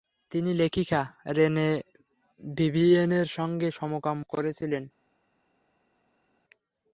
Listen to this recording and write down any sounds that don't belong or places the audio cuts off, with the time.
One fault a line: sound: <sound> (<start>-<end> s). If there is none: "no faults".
no faults